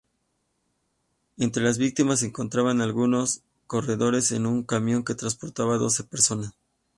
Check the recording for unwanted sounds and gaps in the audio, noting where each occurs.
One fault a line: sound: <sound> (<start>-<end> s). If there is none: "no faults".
no faults